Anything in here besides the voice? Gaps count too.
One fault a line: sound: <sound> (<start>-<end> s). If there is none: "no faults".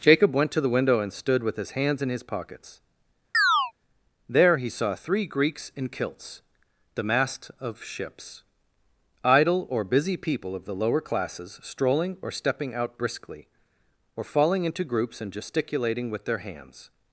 sound: chirp (3.3-3.7 s)